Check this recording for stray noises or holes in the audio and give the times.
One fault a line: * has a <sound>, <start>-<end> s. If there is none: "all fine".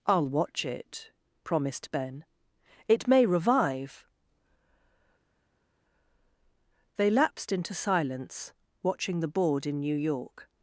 all fine